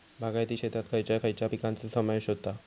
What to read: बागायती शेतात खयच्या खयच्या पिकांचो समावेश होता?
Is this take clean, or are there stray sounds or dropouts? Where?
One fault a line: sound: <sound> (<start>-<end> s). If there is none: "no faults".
no faults